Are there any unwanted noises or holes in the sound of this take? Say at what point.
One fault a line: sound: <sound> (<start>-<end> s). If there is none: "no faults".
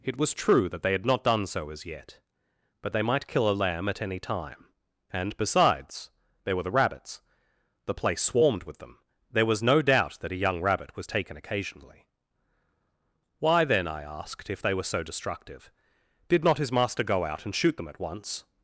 no faults